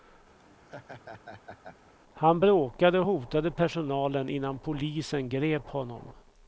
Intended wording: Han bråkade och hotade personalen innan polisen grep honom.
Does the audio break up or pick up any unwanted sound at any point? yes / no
yes